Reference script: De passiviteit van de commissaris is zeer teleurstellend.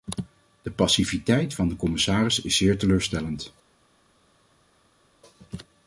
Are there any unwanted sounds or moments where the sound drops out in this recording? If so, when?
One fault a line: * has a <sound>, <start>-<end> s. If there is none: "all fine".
all fine